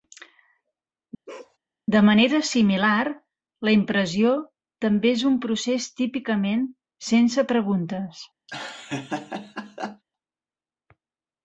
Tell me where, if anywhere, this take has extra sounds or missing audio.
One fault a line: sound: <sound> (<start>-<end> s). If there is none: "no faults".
sound: bark (1.3-1.6 s)
sound: laugh (8.5-10.0 s)